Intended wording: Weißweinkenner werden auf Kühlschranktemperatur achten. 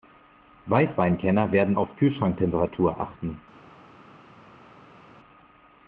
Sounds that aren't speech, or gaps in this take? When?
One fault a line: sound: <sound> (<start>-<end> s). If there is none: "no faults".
no faults